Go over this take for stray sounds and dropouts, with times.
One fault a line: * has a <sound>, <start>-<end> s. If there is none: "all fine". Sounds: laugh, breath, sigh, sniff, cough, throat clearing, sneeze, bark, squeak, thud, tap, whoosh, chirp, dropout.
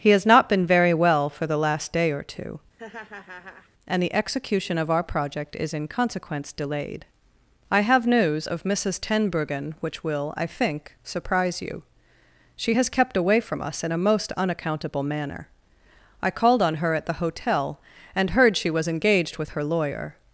* has a laugh, 2.8-3.7 s